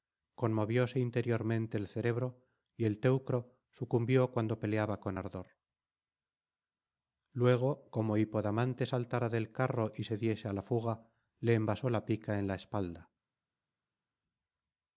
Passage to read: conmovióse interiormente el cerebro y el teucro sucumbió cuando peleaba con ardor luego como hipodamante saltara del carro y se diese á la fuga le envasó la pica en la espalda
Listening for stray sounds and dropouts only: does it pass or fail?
pass